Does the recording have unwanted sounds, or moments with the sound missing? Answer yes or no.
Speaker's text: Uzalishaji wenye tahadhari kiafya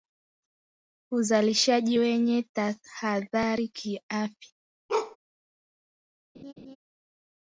yes